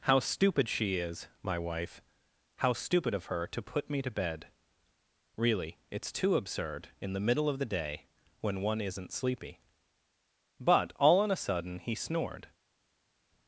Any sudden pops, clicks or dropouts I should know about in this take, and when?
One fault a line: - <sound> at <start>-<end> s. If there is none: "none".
none